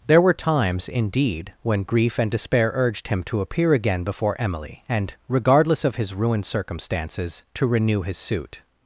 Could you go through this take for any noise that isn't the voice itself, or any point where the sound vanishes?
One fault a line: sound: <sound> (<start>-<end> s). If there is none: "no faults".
no faults